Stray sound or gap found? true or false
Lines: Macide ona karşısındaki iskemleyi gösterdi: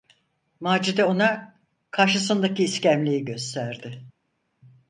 false